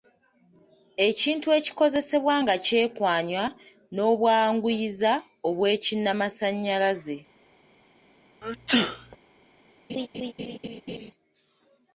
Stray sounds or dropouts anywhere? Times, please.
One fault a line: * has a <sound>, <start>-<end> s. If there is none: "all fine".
* has a sneeze, 8.4-9.2 s
* has a laugh, 9.9-11.1 s